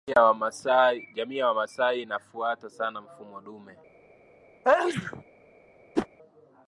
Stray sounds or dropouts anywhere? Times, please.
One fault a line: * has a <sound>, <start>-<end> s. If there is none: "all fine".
* has a sneeze, 4.6-5.2 s
* has a whoosh, 6.0-6.1 s